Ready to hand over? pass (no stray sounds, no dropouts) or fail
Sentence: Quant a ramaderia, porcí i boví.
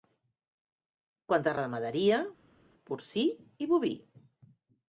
pass